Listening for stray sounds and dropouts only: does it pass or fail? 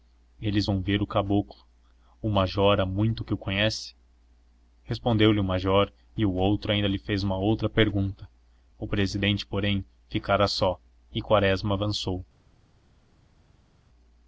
pass